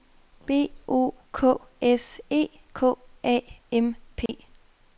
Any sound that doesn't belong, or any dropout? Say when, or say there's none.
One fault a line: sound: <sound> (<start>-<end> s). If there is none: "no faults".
sound: dropout (4.3-4.3 s)